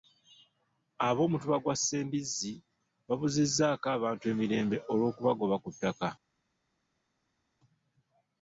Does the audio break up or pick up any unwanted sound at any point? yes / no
no